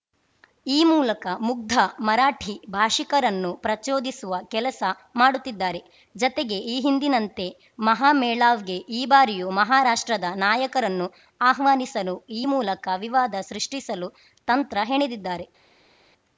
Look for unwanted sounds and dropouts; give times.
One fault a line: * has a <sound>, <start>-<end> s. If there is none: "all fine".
all fine